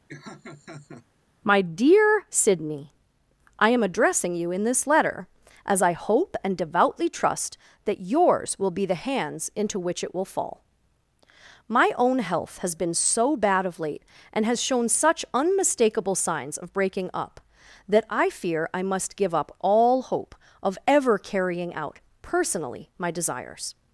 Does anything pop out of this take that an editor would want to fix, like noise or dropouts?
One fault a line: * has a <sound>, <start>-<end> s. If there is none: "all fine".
* has a laugh, 0.1-1.1 s